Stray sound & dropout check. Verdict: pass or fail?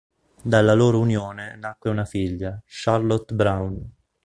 pass